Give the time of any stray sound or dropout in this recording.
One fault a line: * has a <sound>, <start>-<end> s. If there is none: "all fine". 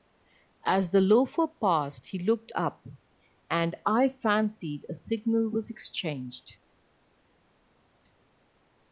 all fine